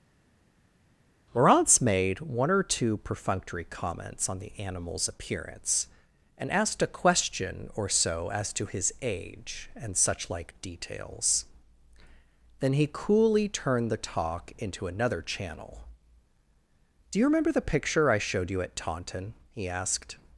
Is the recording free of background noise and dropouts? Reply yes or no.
yes